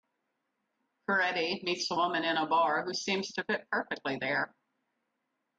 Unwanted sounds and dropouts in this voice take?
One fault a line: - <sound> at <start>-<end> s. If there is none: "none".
none